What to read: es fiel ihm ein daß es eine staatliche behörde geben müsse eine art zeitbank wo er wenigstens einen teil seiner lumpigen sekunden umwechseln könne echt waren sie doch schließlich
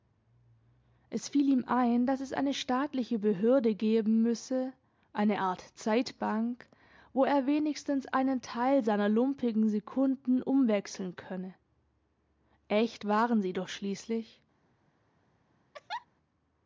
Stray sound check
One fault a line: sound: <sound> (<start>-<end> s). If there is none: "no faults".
sound: laugh (15.7-16.1 s)